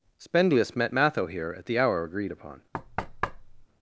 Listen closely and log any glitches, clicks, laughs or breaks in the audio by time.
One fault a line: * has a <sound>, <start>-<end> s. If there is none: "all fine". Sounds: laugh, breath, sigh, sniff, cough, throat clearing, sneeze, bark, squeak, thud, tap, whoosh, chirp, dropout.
* has a thud, 2.7-3.7 s